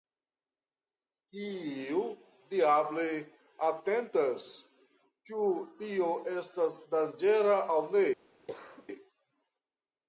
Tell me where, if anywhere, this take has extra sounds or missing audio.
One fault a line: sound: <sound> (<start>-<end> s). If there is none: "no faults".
sound: cough (8.5-8.9 s)